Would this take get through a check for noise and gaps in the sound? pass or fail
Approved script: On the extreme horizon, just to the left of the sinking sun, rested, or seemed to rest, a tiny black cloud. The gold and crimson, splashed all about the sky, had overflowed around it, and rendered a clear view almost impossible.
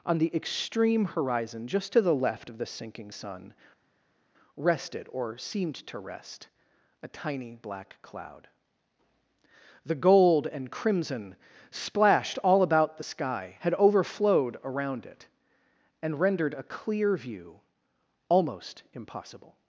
pass